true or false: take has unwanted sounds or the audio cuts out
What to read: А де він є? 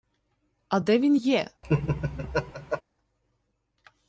true